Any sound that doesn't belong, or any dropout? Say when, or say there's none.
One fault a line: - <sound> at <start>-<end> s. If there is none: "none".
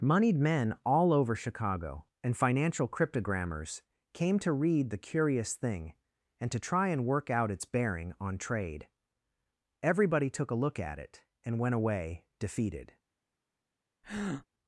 - breath at 14.0-14.5 s